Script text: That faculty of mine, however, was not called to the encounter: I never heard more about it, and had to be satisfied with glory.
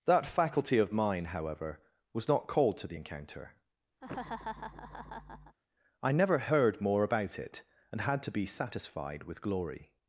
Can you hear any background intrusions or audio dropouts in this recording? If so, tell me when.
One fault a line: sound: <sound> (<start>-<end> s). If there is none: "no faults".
sound: laugh (4.0-5.6 s)